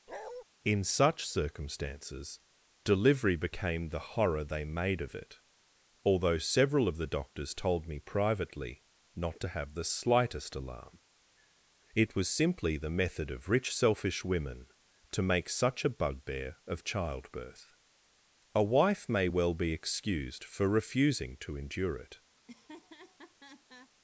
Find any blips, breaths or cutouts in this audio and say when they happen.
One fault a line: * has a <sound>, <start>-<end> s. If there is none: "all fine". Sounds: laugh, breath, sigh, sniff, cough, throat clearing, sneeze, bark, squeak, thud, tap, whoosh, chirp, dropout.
* has a bark, 0.1-0.4 s
* has a laugh, 22.4-23.9 s